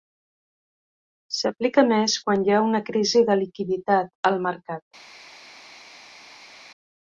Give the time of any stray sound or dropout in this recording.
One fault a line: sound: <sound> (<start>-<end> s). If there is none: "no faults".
no faults